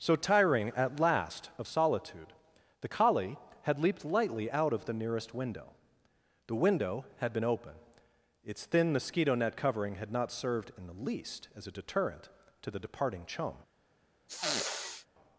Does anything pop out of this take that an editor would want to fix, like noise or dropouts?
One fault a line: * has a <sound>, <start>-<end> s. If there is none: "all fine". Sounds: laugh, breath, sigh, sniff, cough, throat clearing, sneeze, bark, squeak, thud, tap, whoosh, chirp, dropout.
* has a sniff, 14.3-15.1 s